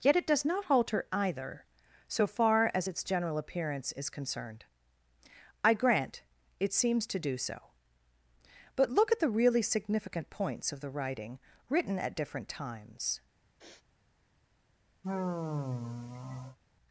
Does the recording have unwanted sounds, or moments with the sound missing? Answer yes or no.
yes